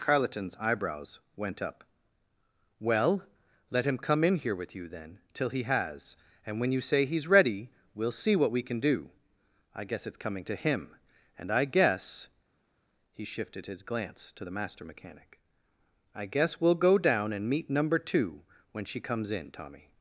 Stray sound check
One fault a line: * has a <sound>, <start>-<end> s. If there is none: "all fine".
all fine